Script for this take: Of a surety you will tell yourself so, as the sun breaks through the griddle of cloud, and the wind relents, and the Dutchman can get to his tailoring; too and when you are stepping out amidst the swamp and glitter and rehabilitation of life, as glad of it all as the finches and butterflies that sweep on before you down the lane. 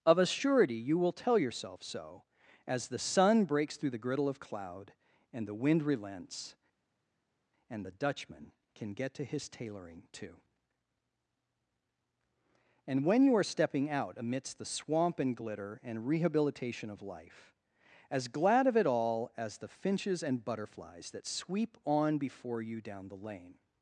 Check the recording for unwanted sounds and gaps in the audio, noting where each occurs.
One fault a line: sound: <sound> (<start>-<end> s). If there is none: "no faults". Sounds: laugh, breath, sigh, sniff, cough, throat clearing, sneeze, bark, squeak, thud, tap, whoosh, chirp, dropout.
no faults